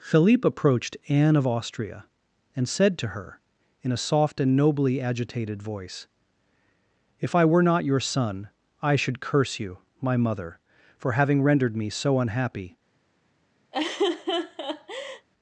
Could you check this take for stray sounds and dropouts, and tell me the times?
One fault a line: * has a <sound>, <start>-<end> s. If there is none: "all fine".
* has a laugh, 13.7-15.3 s